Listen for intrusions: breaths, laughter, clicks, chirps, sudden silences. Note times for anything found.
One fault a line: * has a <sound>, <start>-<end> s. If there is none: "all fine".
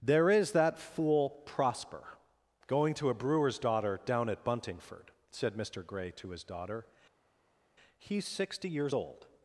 all fine